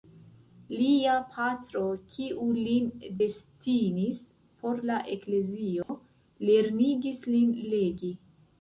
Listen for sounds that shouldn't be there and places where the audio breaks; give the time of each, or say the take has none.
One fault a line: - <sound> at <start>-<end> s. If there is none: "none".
- dropout at 5.8-5.9 s